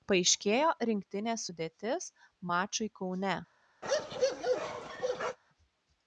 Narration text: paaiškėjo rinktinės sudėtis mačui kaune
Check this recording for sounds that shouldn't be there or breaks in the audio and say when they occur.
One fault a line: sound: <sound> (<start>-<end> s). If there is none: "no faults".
sound: bark (3.8-5.4 s)